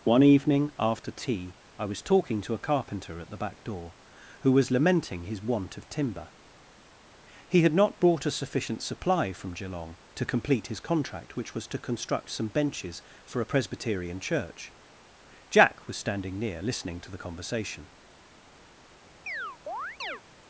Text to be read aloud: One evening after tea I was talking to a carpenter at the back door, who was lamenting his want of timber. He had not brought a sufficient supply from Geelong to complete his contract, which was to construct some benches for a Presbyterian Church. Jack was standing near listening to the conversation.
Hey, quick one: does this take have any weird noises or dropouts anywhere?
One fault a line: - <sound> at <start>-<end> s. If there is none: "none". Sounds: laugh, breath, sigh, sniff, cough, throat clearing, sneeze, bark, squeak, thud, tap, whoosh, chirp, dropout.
- chirp at 19.3-20.2 s